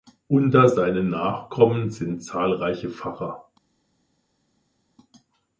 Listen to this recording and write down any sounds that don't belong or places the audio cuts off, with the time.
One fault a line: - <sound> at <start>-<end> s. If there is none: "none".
none